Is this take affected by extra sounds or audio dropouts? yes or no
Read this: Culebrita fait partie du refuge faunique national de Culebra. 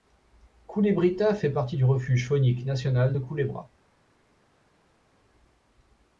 no